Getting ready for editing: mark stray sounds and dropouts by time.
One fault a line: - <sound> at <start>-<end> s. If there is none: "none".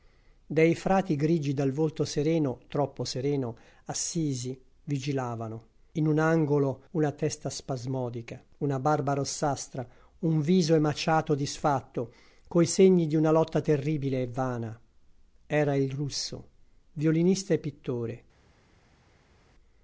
none